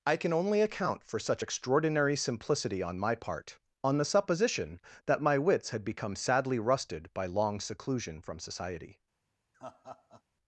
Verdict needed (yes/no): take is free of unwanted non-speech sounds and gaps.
no